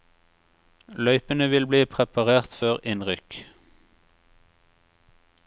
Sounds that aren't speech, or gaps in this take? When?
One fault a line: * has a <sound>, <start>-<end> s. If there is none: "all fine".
all fine